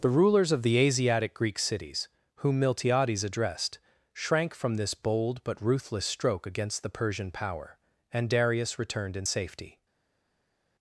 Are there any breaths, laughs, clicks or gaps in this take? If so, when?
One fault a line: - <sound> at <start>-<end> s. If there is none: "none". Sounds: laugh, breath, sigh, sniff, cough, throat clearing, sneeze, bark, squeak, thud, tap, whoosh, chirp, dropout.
none